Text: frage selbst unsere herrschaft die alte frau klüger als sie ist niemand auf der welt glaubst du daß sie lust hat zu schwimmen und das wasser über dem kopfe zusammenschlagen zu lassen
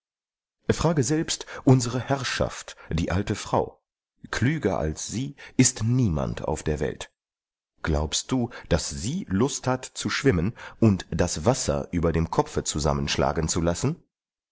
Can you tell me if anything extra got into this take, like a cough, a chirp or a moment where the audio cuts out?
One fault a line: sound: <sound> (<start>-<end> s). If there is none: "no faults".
no faults